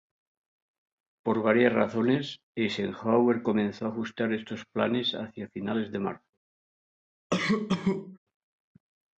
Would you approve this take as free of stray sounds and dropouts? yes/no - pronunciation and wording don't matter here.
no